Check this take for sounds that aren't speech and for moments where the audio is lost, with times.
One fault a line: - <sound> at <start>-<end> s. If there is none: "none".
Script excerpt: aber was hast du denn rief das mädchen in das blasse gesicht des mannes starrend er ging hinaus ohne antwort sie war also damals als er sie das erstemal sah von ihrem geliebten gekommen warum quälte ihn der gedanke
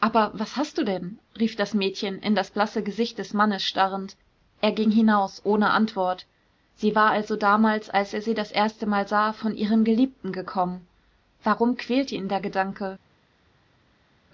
none